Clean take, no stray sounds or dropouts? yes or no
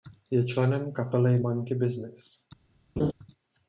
no